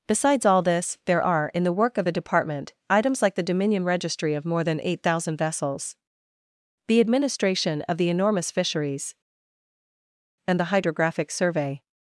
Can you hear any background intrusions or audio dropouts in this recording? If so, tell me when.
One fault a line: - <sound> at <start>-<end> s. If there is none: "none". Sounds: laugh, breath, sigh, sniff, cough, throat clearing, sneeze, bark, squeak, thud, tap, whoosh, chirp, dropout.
none